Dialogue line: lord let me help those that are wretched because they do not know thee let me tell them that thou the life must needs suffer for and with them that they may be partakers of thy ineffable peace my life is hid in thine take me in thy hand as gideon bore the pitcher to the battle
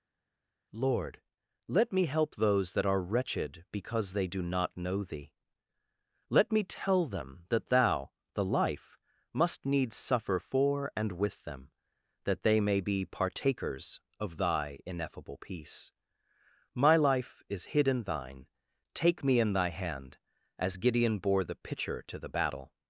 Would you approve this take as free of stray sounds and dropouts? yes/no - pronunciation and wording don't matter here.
yes